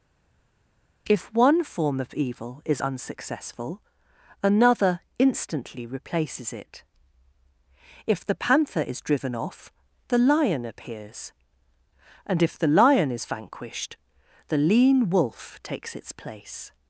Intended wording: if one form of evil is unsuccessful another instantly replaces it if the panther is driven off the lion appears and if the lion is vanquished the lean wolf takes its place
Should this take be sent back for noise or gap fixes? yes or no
no